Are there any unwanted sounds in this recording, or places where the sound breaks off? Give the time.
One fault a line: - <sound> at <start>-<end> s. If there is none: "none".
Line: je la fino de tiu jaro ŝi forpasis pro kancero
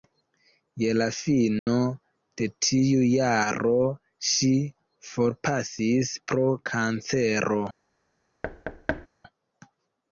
- dropout at 1.6-1.7 s
- thud at 8.4-9.1 s